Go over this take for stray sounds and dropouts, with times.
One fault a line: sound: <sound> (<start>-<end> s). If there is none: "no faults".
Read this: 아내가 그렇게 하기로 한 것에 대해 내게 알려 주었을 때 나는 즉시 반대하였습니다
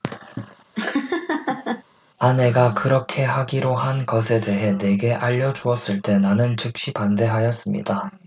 sound: laugh (0.7-1.8 s)